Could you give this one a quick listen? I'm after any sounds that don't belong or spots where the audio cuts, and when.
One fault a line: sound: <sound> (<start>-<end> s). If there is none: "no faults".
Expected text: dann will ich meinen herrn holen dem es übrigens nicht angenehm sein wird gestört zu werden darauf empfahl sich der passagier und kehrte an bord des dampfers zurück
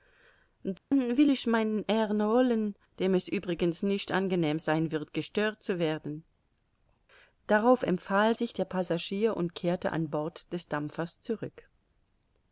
sound: dropout (0.8-0.9 s)